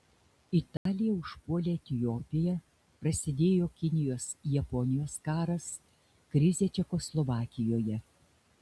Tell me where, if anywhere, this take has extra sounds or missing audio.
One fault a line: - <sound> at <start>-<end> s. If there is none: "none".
- dropout at 0.8-0.9 s